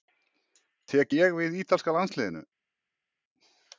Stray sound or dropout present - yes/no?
no